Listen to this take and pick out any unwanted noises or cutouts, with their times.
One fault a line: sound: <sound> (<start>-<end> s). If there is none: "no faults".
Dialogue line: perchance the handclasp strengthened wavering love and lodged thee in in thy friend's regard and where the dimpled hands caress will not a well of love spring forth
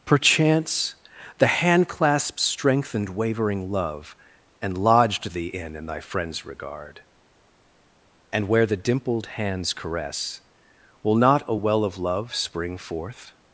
no faults